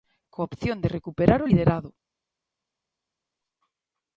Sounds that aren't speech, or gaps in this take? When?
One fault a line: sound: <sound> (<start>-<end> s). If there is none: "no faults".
no faults